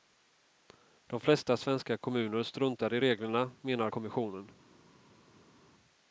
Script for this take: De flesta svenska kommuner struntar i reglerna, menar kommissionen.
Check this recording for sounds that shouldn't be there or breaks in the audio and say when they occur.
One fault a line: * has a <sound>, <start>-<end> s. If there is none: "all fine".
all fine